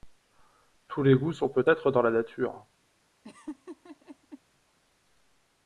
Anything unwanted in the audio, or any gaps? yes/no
yes